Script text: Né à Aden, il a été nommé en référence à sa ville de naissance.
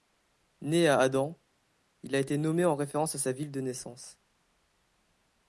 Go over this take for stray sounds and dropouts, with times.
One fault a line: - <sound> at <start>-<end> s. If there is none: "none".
none